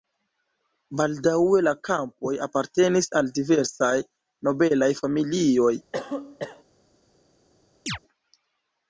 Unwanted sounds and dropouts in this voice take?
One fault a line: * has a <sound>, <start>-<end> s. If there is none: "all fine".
* has a cough, 5.9-6.6 s
* has a chirp, 7.9-8.0 s